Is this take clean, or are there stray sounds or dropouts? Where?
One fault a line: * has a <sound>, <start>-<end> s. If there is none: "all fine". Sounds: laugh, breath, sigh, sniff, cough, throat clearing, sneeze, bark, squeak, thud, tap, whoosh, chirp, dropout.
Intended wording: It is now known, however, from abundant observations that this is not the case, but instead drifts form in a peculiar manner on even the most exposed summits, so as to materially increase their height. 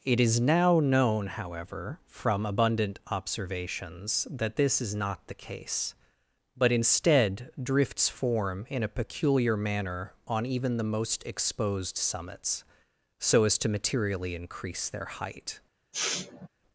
* has a sniff, 15.9-16.5 s